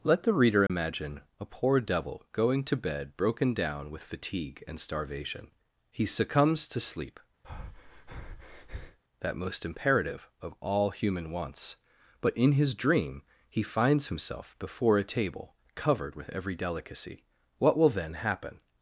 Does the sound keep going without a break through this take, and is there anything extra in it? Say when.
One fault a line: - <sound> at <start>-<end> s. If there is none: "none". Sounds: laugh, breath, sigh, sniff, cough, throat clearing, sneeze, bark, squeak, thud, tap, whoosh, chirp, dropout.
- dropout at 0.7-0.7 s
- breath at 7.4-9.0 s